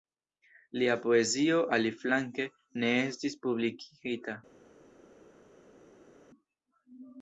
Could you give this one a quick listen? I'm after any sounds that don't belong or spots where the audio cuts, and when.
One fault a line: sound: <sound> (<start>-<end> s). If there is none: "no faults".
no faults